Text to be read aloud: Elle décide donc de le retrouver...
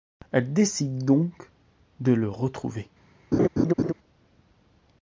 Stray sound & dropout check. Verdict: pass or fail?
fail